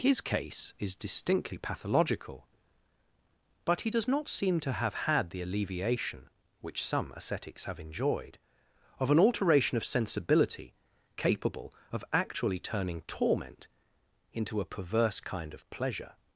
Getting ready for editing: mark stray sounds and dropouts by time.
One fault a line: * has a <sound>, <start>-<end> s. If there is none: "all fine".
all fine